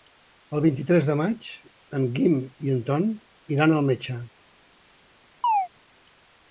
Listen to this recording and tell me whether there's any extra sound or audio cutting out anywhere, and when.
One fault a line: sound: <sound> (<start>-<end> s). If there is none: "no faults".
sound: chirp (5.4-5.7 s)